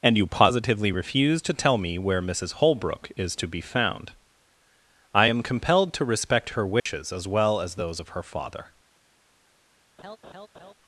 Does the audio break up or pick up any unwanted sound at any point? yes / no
yes